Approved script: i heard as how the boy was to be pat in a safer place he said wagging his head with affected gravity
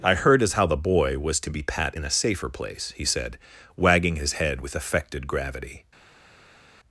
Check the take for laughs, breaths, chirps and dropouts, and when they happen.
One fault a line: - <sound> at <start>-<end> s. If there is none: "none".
none